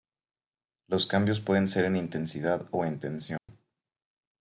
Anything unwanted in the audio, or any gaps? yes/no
yes